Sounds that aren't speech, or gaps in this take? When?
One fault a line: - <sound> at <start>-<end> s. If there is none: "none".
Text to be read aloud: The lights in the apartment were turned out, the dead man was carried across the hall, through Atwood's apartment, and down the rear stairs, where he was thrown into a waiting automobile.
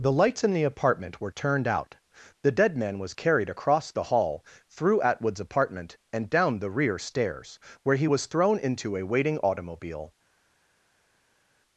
none